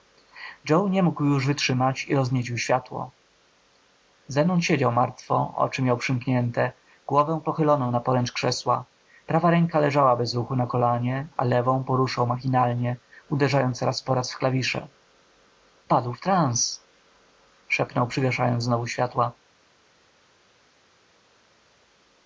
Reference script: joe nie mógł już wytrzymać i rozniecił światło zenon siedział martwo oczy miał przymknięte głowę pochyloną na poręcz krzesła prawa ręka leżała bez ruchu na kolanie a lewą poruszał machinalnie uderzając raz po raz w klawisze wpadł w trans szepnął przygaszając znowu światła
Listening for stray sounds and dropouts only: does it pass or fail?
pass